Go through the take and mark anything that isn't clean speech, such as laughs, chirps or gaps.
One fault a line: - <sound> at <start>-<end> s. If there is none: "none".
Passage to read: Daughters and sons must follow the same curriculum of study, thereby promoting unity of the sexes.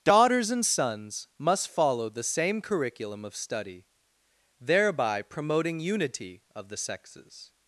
none